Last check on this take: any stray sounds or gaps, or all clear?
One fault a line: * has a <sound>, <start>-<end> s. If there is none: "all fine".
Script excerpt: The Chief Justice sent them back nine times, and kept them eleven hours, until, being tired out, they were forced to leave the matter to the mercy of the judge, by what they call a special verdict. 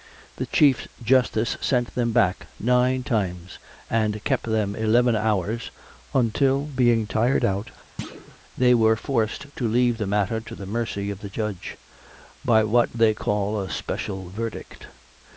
* has a thud, 8.0-8.4 s